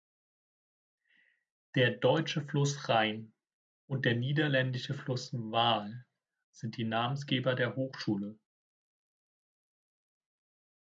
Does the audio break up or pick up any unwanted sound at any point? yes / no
no